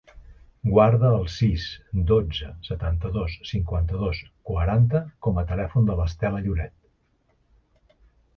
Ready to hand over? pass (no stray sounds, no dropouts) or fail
pass